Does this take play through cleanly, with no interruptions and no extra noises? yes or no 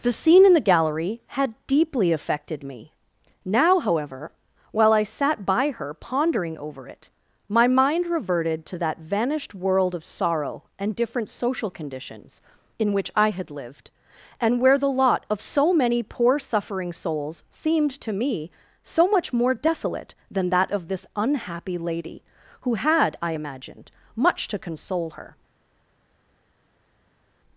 yes